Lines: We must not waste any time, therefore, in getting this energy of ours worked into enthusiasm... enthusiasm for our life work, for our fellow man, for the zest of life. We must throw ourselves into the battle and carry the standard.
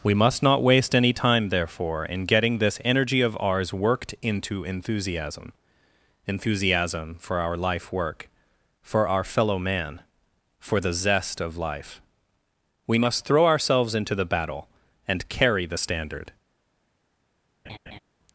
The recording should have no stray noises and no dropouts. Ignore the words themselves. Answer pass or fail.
fail